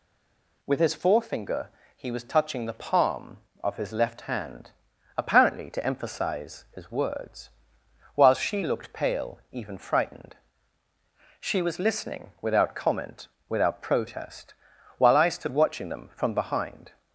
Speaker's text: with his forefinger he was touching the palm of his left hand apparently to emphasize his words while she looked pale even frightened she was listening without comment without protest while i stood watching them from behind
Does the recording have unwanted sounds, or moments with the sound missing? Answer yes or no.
no